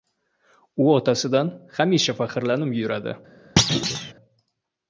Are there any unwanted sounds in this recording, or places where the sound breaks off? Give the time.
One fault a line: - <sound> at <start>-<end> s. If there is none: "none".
- thud at 3.6-4.1 s